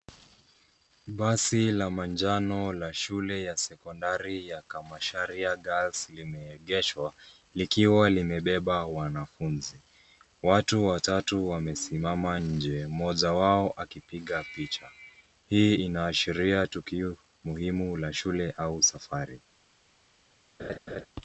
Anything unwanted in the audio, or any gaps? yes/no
yes